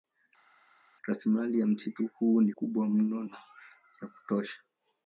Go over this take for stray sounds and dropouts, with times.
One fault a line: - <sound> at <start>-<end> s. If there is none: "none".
none